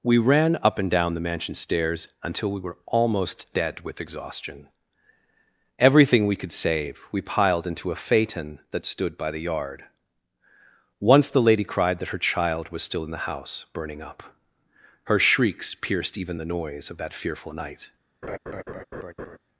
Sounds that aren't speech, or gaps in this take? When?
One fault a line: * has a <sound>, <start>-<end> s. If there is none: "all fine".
* has a laugh, 18.2-19.4 s